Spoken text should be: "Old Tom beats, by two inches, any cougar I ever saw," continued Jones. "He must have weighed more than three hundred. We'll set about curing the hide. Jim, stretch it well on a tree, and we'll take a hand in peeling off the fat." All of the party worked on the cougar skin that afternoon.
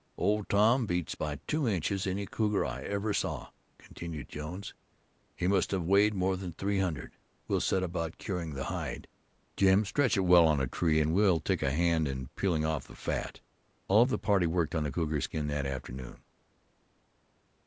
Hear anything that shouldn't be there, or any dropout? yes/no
no